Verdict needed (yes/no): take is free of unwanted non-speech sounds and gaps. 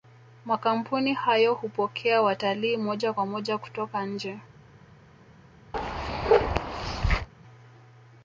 no